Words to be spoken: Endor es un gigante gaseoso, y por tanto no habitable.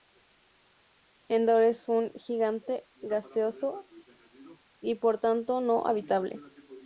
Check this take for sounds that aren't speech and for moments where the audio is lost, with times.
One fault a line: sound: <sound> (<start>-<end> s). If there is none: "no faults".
no faults